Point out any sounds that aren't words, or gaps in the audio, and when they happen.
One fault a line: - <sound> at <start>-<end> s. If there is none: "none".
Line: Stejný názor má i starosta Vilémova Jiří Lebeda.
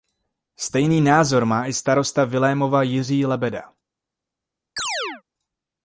- chirp at 4.8-5.2 s